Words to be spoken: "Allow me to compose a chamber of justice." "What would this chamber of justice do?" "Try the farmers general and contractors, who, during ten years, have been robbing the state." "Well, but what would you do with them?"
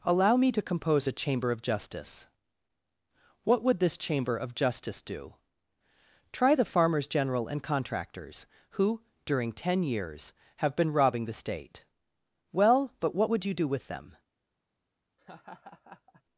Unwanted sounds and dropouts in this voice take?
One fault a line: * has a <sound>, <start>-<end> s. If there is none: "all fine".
* has a laugh, 15.2-16.2 s